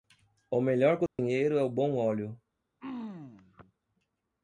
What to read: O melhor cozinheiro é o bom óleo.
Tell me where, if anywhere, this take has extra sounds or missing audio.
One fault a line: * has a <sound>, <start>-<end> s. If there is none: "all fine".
* has a dropout, 1.1-1.2 s
* has a throat clearing, 2.8-3.7 s